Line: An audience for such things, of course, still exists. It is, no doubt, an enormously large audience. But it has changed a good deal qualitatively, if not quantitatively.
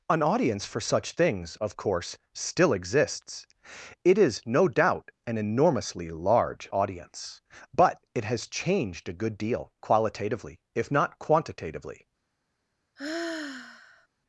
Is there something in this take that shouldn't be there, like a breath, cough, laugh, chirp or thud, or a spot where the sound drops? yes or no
yes